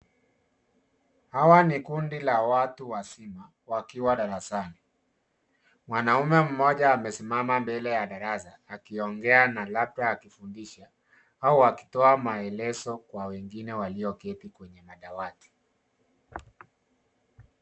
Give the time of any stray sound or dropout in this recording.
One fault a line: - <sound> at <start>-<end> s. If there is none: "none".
none